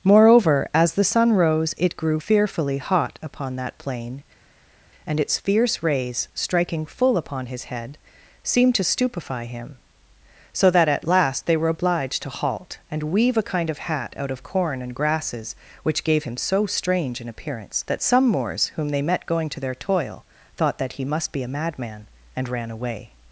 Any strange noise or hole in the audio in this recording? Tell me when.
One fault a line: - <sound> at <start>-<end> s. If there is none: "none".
none